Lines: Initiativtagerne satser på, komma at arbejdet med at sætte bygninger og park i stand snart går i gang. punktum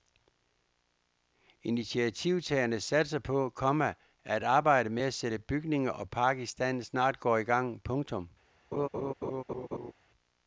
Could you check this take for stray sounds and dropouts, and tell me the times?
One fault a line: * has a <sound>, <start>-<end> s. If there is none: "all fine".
* has a laugh, 8.7-9.9 s